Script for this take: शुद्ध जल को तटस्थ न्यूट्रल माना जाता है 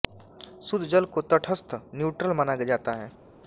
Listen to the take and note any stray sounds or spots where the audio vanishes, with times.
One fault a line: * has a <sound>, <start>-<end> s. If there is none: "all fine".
all fine